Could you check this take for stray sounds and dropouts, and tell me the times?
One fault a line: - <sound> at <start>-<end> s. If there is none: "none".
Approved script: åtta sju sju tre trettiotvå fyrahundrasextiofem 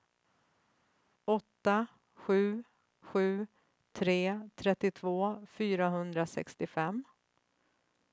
none